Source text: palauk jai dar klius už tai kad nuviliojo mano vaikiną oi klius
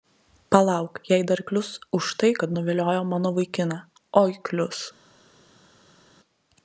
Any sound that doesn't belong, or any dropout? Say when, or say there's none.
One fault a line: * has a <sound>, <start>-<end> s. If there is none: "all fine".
all fine